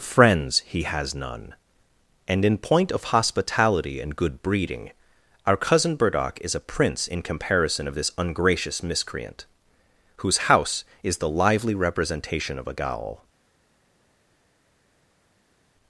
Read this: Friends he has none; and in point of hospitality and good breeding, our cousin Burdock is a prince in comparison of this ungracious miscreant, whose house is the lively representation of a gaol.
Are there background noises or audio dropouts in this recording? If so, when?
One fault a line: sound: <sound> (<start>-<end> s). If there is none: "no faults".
no faults